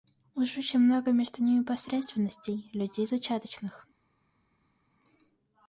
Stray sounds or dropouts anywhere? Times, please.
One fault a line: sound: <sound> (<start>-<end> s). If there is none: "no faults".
no faults